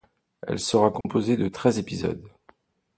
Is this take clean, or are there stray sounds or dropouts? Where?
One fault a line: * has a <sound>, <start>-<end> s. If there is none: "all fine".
* has a dropout, 1.0-1.0 s